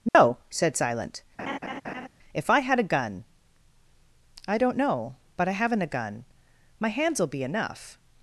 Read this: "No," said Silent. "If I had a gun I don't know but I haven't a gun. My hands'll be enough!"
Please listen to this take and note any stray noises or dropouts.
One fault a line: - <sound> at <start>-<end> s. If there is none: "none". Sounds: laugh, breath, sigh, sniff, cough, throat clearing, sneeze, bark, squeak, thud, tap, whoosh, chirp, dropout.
- dropout at 0.1-0.1 s
- laugh at 1.4-2.1 s